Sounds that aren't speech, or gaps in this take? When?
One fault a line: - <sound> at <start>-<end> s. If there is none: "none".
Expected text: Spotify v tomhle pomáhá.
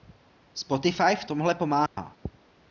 - dropout at 1.9-2.0 s